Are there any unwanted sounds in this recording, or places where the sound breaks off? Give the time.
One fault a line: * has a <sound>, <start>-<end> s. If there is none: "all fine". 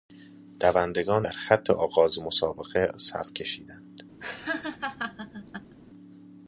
* has a laugh, 4.2-5.8 s